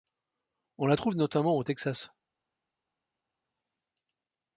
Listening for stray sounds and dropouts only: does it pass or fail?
pass